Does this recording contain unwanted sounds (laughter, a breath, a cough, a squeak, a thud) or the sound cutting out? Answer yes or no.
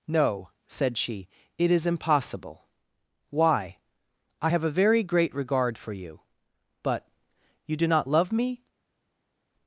no